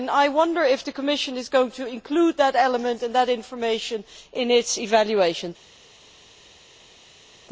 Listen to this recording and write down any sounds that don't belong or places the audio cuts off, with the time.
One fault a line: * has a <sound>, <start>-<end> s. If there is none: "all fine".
all fine